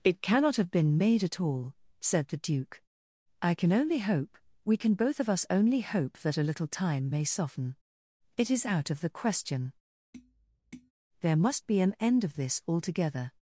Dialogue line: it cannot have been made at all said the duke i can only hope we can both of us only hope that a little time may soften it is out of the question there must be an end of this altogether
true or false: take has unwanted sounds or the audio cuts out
true